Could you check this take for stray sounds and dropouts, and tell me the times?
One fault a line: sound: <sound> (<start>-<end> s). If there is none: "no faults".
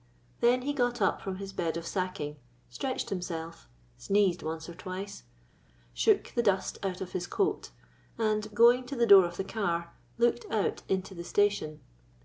no faults